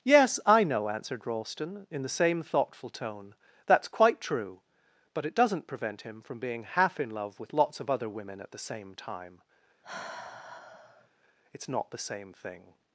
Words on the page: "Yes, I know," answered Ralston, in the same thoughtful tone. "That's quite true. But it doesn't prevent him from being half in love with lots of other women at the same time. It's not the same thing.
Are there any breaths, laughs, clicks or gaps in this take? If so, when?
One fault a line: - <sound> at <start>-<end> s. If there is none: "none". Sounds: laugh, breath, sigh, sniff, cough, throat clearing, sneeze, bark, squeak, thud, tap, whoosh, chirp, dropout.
- sigh at 9.8-11.1 s